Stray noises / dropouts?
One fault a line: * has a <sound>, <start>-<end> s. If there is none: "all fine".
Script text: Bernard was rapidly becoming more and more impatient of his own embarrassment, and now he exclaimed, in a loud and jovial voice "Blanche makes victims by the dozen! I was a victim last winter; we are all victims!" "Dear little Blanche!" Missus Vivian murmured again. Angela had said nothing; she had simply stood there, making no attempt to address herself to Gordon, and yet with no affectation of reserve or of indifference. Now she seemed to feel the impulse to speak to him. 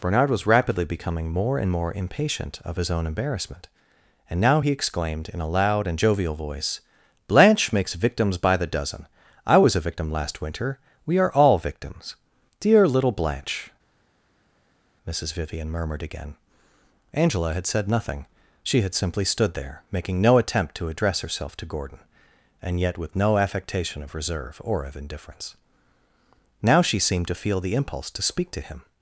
all fine